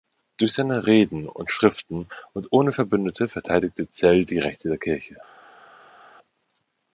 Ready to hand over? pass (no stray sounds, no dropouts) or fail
pass